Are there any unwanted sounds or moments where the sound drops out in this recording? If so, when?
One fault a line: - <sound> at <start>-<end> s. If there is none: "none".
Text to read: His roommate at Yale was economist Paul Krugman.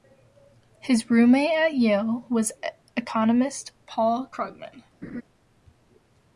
- laugh at 5.0-5.2 s